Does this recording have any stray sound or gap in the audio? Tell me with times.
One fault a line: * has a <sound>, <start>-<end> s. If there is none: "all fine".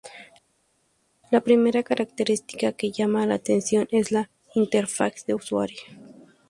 all fine